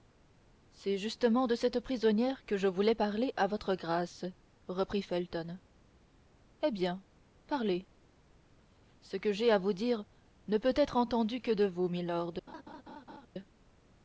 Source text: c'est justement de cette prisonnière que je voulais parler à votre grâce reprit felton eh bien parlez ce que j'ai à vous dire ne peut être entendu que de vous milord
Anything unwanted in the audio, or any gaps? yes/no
yes